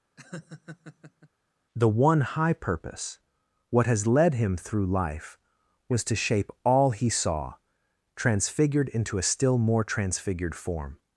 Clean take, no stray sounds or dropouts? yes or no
no